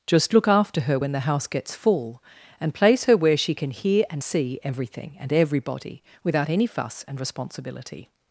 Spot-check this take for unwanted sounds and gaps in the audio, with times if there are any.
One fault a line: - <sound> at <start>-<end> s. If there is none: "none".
none